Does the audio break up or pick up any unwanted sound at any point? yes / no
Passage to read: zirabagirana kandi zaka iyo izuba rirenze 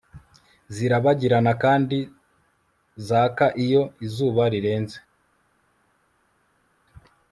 no